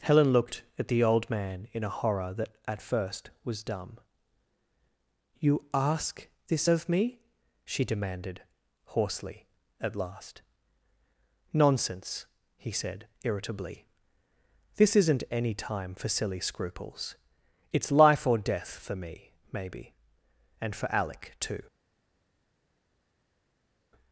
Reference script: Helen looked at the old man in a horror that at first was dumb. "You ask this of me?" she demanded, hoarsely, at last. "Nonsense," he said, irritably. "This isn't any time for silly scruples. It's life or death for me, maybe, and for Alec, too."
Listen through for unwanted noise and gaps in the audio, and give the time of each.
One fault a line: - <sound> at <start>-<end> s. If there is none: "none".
none